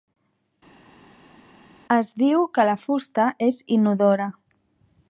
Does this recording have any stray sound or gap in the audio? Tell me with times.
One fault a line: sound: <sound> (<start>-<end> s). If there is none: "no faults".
no faults